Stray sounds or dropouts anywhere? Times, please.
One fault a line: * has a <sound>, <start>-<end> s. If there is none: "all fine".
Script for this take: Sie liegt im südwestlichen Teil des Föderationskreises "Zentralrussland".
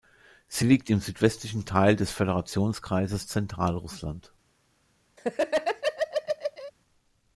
* has a laugh, 5.2-6.7 s